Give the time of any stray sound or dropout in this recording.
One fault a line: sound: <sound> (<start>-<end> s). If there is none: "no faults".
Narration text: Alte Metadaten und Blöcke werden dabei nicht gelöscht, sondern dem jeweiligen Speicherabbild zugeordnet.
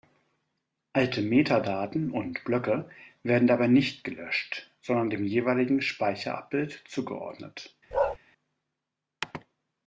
sound: bark (7.9-8.2 s)